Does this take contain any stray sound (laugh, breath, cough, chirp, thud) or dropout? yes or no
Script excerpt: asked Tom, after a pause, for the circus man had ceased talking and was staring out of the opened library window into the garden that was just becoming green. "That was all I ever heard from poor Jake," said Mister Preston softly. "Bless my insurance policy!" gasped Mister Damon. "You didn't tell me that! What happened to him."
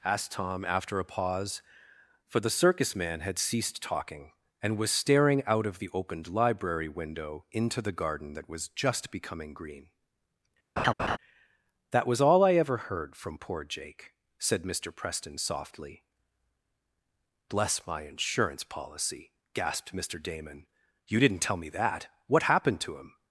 yes